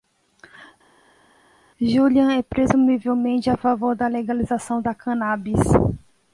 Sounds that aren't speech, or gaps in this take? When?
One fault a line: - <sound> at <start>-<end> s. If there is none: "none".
none